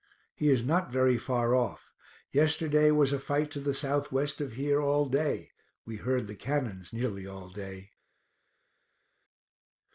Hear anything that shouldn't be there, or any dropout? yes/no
no